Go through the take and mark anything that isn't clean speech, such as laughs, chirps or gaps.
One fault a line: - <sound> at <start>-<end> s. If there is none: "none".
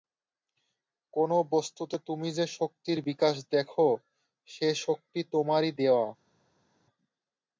none